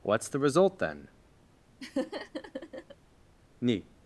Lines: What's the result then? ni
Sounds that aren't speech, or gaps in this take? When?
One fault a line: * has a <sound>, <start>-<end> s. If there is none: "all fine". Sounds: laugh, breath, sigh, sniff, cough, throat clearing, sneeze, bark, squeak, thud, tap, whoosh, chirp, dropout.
* has a laugh, 1.8-3.0 s